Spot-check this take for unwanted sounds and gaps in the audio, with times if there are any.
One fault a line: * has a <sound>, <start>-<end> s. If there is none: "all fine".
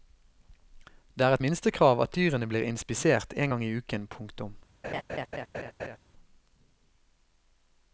* has a laugh, 4.8-6.0 s